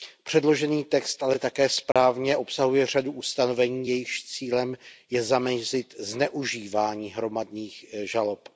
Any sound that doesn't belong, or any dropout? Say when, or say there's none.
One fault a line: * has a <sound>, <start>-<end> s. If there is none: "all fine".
* has a dropout, 1.9-2.0 s